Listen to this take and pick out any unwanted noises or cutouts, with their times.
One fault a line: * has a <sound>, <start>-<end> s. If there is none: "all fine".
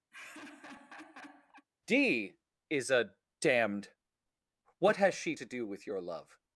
* has a laugh, 0.1-1.7 s